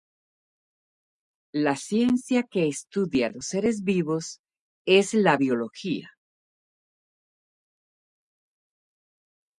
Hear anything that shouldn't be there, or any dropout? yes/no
no